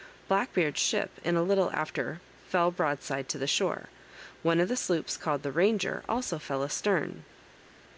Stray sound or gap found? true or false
false